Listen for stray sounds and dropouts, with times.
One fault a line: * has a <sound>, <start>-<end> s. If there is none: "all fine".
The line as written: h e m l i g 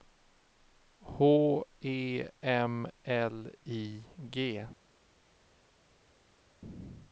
all fine